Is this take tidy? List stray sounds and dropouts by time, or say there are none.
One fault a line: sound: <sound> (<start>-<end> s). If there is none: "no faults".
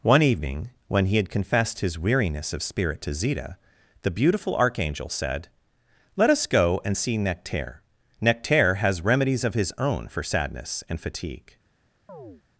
sound: chirp (12.1-12.4 s)